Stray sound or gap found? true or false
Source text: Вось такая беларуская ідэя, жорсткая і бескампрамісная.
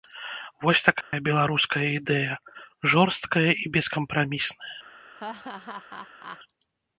true